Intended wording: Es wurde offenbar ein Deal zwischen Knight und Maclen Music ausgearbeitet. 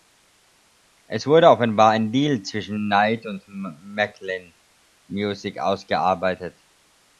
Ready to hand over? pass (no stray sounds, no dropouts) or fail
pass